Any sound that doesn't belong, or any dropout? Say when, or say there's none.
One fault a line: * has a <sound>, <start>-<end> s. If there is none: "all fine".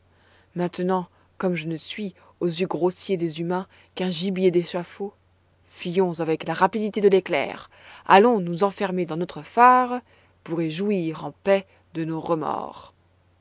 all fine